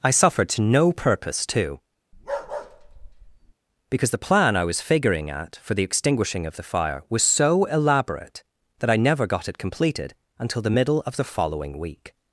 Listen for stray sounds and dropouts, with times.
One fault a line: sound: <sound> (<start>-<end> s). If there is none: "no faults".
sound: bark (2.1-3.5 s)